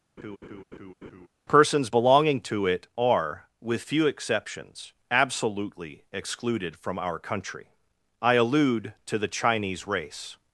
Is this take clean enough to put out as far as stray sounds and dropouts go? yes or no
no